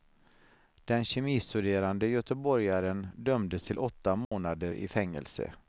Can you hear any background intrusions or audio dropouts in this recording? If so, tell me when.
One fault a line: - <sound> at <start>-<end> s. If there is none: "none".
- dropout at 4.2-4.3 s